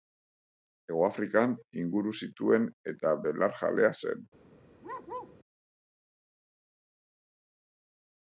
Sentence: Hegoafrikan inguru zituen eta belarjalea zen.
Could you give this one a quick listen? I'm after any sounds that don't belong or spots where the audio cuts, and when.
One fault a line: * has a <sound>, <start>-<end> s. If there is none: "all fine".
* has a bark, 4.8-5.4 s